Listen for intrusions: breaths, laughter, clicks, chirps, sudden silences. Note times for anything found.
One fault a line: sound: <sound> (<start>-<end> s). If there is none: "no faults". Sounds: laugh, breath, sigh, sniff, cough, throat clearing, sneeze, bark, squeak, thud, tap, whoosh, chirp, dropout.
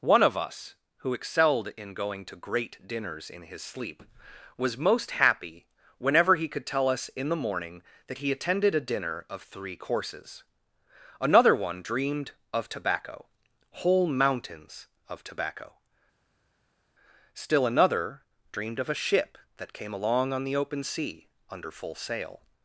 no faults